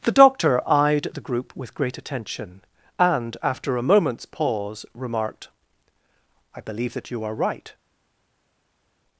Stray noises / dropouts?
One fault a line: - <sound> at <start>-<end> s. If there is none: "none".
none